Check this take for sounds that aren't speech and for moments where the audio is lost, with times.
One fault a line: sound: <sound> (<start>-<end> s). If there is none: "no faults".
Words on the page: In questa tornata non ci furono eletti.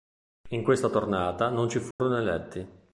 sound: dropout (1.9-2.0 s)